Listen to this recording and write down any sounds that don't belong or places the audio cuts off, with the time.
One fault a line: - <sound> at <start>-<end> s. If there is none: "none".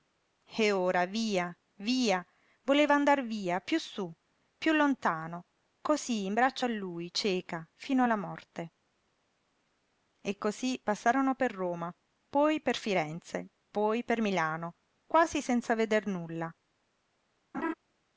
- laugh at 17.5-17.7 s